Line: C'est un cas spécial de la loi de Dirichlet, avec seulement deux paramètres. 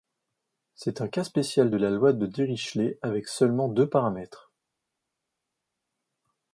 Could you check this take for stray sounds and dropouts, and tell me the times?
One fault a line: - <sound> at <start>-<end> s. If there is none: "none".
none